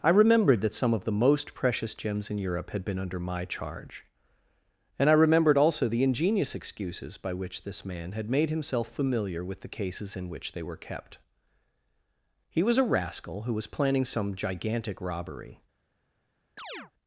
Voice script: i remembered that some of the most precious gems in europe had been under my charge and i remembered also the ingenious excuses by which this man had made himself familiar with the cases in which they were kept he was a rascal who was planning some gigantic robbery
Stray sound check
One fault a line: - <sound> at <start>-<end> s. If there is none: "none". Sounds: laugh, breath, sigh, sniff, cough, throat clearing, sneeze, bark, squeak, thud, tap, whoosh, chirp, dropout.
- chirp at 16.6-16.9 s